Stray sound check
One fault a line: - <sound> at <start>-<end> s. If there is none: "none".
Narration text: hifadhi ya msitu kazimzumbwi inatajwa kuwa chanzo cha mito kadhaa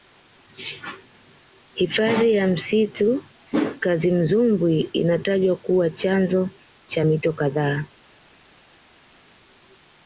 none